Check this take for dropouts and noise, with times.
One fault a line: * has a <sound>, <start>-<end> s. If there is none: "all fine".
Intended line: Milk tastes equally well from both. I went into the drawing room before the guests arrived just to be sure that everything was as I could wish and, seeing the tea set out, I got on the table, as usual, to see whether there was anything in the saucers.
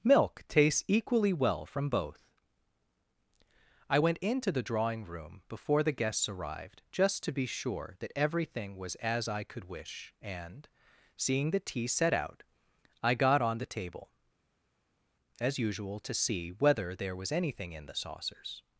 all fine